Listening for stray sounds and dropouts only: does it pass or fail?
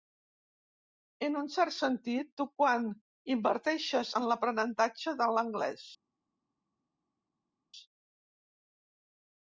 pass